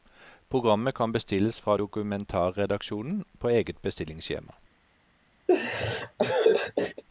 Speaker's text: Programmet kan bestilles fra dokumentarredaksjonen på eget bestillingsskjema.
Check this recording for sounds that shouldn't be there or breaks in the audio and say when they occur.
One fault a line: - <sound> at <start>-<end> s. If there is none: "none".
- laugh at 5.5-7.0 s